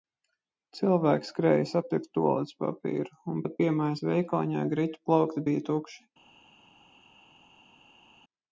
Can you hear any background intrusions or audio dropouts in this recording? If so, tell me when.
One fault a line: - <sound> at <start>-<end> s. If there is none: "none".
none